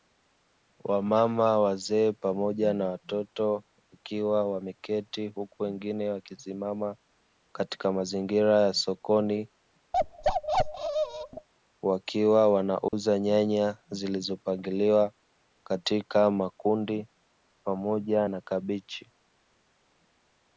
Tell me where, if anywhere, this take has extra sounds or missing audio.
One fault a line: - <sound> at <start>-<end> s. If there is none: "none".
- bark at 9.9-11.5 s
- dropout at 12.9-12.9 s